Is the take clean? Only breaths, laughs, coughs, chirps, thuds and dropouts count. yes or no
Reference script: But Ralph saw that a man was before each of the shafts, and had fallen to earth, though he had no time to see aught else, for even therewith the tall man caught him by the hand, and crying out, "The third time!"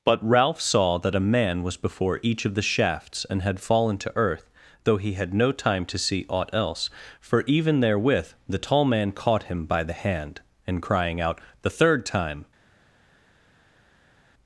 yes